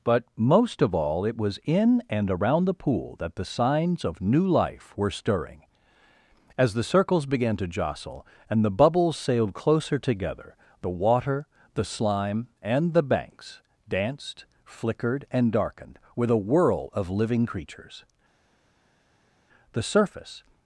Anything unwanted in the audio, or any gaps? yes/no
no